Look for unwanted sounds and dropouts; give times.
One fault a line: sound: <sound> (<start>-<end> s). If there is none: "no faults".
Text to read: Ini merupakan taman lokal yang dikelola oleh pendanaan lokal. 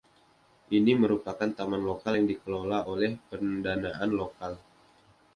no faults